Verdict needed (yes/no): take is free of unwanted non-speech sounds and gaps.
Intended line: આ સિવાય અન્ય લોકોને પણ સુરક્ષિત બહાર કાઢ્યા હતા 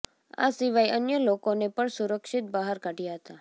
yes